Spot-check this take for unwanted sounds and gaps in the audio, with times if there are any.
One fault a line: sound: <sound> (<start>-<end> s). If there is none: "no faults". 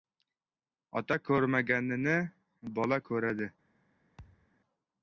sound: thud (4.2-4.5 s)